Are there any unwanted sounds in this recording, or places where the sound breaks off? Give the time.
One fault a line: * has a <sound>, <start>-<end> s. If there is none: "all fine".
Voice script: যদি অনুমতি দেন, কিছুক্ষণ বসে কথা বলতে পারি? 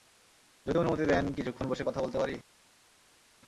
all fine